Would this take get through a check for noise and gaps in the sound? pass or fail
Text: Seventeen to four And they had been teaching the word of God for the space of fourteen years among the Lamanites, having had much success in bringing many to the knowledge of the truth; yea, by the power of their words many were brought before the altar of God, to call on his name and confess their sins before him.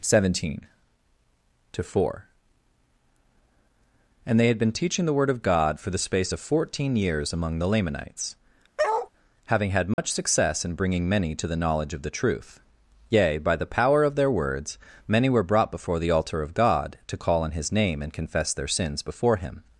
fail